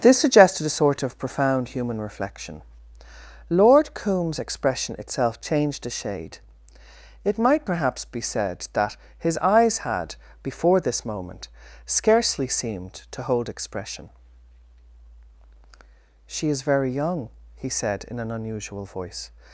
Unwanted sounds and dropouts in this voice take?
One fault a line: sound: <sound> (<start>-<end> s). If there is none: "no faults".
no faults